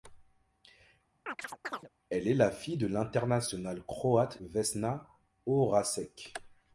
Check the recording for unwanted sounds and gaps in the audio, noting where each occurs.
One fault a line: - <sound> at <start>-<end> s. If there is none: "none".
- chirp at 1.3-1.9 s